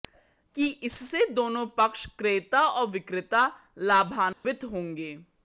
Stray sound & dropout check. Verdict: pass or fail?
fail